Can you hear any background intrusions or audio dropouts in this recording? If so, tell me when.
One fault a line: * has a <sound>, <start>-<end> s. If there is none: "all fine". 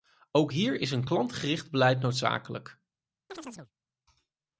* has a chirp, 3.3-3.7 s